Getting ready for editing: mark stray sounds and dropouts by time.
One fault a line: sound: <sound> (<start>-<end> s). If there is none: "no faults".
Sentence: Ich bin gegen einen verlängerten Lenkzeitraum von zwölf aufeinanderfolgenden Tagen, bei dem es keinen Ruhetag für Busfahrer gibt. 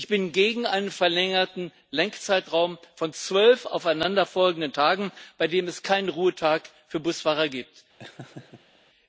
sound: laugh (8.0-8.8 s)